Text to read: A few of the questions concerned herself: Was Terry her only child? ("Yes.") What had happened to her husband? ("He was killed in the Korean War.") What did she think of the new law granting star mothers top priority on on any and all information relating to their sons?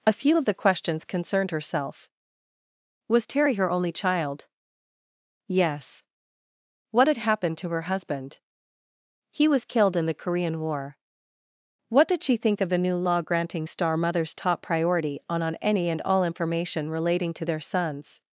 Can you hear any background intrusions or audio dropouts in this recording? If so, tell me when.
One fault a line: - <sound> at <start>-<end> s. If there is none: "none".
none